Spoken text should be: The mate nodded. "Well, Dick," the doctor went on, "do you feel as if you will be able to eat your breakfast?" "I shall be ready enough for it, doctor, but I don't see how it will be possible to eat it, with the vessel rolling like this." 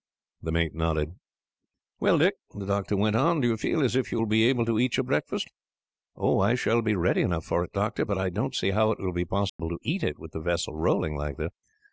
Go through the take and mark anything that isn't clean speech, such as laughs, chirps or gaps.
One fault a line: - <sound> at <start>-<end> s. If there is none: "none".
- dropout at 9.5-9.6 s